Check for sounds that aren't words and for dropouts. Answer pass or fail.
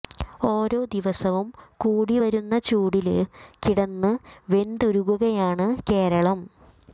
pass